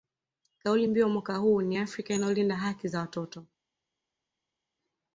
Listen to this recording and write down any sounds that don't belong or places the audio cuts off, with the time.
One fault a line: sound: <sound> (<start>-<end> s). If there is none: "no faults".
no faults